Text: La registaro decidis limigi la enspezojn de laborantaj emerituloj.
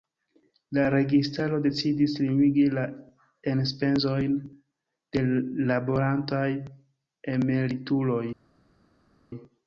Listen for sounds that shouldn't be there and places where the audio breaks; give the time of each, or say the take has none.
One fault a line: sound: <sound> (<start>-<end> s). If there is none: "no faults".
no faults